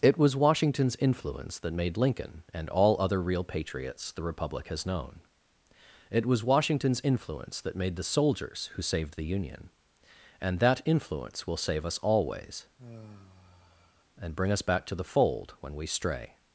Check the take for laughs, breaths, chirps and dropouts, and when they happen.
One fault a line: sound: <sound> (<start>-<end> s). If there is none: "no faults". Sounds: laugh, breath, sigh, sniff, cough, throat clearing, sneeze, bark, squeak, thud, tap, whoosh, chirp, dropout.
sound: sigh (12.8-14.0 s)